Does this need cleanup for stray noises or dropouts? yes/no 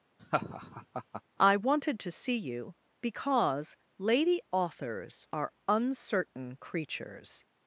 yes